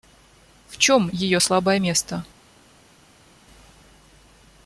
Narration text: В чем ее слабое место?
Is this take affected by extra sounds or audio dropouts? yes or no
no